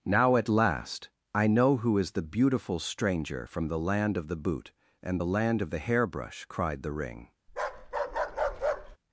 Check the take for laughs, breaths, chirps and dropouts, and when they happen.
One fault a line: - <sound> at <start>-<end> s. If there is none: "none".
- bark at 7.5-9.0 s